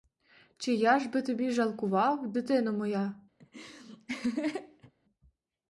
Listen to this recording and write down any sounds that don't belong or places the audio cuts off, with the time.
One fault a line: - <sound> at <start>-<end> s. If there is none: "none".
- laugh at 3.4-4.9 s